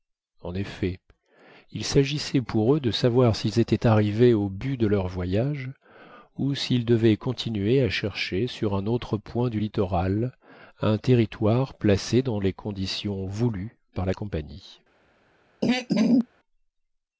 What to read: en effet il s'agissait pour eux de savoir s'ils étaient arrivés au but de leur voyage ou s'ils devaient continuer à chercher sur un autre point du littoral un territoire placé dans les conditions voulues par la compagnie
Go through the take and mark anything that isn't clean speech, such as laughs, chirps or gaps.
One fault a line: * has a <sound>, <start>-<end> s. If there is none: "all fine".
* has a throat clearing, 15.6-16.3 s